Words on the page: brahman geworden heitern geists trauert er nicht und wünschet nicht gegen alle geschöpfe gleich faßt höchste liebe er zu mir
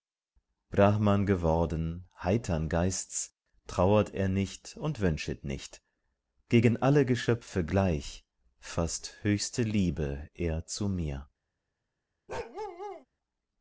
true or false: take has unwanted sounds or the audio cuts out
true